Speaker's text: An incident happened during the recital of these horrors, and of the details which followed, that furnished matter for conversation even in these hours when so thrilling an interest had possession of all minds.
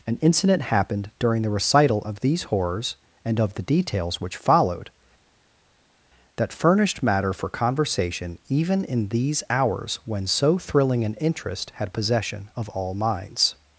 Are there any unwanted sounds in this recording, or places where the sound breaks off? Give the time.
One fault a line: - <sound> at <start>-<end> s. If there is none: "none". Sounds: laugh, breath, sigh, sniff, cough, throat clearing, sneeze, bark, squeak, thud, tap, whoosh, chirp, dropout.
none